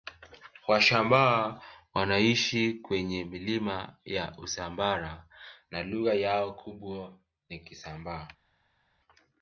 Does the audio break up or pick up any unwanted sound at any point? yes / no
no